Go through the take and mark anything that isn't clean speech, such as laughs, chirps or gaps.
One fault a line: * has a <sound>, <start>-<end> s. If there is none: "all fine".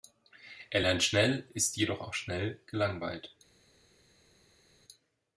all fine